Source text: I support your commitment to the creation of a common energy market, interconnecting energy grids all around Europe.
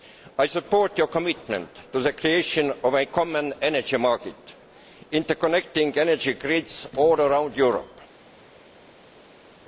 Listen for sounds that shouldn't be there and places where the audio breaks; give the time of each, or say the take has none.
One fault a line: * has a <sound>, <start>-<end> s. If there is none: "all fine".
all fine